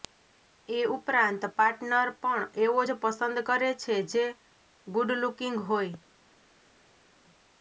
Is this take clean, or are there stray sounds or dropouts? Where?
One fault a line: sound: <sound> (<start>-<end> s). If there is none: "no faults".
no faults